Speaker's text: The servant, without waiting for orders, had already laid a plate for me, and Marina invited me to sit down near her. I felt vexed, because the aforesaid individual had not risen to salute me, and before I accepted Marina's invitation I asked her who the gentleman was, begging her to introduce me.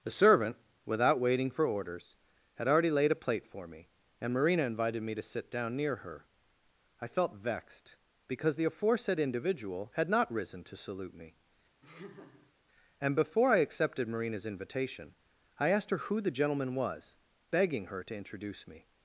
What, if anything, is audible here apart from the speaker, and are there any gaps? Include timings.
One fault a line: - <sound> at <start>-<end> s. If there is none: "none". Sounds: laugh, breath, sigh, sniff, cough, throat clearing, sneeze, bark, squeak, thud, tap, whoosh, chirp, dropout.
- laugh at 11.8-12.5 s